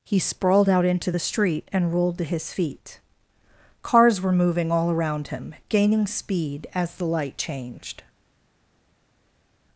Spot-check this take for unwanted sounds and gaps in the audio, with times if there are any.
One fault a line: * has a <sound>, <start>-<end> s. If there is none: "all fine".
all fine